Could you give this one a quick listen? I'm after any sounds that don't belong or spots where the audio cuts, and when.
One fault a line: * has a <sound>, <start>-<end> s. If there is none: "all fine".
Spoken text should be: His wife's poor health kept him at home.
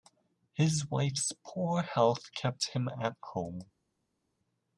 all fine